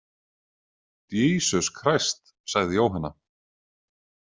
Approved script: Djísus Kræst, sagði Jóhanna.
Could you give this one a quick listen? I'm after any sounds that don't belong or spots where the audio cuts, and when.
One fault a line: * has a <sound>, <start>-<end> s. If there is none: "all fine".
all fine